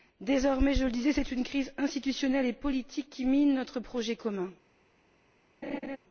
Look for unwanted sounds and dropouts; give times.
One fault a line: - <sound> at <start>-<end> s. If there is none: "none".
- laugh at 5.6-6.0 s